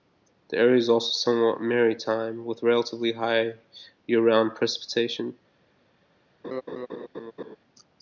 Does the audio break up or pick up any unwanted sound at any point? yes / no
yes